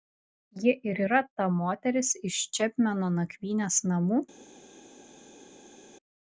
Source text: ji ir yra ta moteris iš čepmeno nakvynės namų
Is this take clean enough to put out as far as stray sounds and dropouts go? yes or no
yes